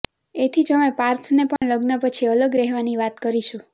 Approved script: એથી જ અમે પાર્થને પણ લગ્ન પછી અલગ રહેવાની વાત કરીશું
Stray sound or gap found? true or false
true